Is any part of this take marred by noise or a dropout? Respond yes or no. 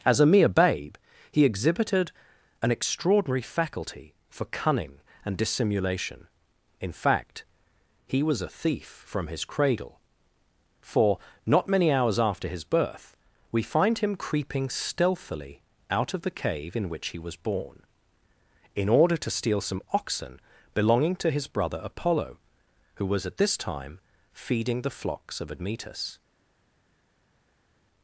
no